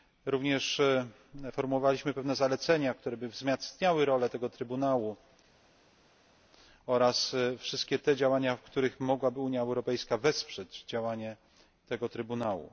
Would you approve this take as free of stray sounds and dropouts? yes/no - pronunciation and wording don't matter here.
yes